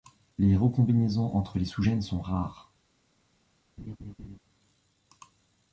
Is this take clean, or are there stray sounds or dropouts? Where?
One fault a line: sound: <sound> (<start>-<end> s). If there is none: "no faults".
sound: laugh (3.8-4.4 s)